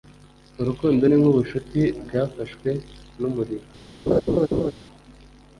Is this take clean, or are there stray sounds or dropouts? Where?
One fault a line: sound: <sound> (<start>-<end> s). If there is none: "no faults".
sound: laugh (4.1-4.7 s)